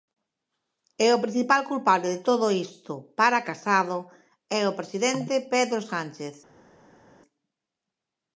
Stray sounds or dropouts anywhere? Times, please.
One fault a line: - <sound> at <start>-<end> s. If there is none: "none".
none